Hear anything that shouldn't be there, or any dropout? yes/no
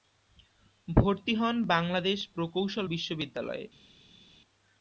no